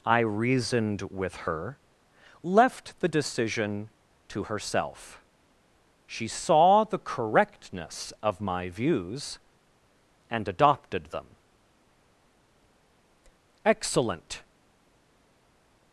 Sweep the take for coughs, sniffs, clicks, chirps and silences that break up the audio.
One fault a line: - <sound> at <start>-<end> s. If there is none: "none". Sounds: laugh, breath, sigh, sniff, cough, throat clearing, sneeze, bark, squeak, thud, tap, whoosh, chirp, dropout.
none